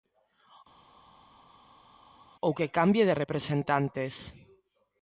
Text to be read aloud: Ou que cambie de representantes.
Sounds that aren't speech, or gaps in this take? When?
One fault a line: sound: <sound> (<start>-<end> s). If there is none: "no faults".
no faults